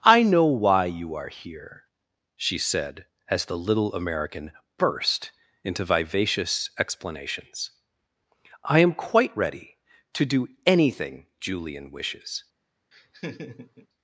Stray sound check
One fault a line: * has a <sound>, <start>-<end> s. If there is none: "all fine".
* has a laugh, 12.9-13.9 s